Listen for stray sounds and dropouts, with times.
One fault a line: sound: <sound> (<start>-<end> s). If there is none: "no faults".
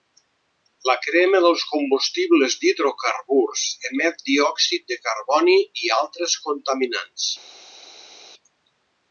no faults